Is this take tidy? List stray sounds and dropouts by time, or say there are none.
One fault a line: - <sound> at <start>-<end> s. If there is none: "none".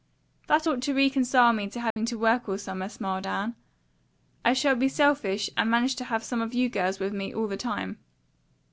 - dropout at 1.9-2.0 s